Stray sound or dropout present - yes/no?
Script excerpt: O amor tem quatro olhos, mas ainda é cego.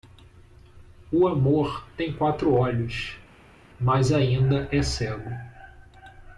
no